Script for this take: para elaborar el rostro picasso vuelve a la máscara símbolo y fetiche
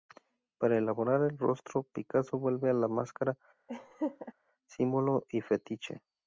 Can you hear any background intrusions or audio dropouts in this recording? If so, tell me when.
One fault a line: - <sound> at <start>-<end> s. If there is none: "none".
- laugh at 3.7-4.3 s